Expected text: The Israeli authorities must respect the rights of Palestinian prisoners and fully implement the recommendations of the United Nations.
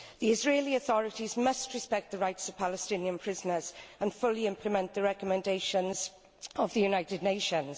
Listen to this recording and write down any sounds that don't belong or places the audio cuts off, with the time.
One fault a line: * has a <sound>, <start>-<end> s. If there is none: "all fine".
all fine